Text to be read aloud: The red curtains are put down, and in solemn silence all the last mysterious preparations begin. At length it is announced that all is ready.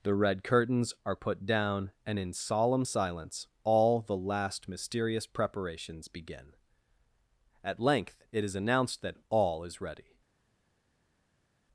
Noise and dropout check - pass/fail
pass